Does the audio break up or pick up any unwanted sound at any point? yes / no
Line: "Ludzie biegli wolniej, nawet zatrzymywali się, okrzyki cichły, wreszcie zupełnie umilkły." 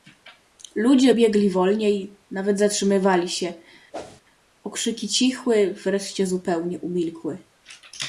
yes